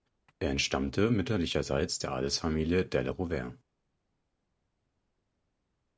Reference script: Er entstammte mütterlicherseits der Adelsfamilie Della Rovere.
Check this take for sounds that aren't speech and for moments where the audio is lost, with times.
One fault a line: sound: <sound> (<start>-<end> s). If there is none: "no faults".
no faults